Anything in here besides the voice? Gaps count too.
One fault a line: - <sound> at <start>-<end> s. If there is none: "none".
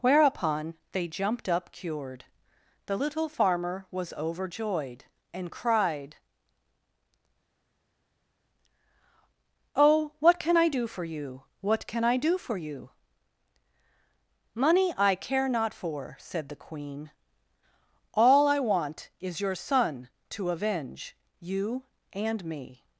none